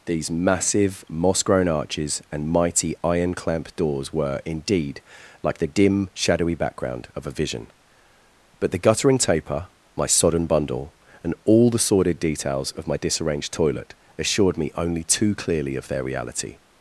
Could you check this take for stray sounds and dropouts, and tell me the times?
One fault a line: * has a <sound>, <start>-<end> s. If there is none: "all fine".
all fine